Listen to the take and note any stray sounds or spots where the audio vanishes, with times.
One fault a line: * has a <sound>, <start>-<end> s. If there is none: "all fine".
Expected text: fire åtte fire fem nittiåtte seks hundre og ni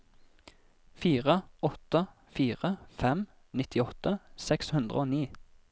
all fine